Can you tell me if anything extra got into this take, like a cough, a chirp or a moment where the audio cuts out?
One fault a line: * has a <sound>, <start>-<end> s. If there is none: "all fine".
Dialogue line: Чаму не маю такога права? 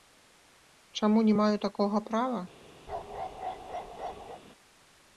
* has a bark, 2.9-4.4 s